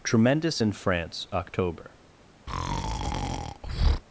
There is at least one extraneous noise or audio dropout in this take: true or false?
true